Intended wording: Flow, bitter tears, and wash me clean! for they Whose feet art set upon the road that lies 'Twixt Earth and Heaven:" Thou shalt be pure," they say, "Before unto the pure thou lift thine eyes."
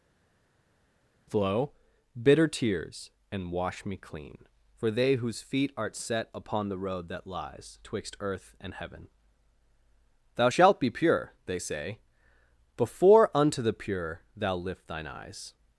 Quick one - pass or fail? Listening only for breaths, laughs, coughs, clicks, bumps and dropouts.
pass